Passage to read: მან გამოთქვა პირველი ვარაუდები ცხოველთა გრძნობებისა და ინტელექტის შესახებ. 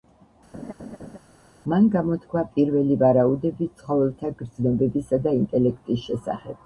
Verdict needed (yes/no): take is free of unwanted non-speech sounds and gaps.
no